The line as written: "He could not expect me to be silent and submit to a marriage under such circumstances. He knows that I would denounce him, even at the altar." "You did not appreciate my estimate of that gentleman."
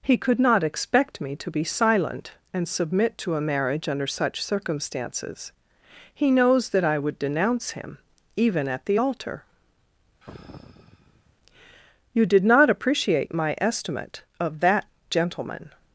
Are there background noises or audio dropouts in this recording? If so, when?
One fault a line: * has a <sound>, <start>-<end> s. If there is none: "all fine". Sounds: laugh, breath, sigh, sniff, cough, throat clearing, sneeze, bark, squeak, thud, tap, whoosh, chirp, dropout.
* has a sigh, 10.2-11.4 s